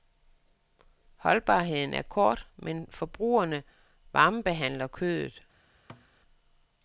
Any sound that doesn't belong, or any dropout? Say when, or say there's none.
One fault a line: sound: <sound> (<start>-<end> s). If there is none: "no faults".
sound: thud (5.9-6.1 s)